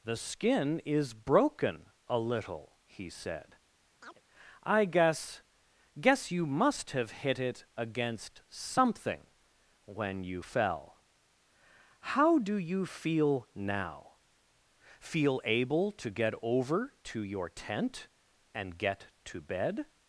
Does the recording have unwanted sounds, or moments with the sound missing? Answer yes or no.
yes